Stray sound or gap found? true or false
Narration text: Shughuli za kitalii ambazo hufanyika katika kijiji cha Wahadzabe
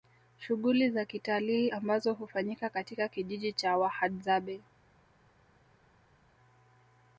false